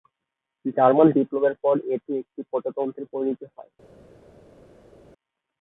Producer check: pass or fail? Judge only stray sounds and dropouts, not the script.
pass